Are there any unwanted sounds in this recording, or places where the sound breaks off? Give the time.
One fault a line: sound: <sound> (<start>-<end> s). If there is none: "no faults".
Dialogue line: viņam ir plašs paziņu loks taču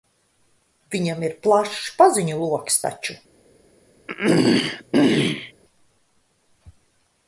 sound: throat clearing (4.1-5.5 s)